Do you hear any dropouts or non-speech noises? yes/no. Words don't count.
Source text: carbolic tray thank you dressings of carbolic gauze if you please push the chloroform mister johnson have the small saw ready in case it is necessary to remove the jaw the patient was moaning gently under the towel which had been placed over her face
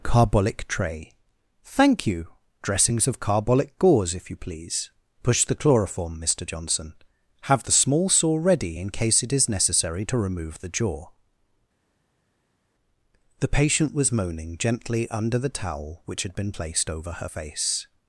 no